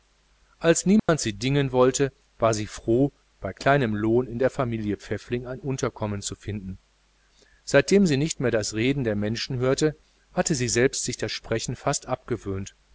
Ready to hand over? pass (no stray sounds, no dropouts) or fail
fail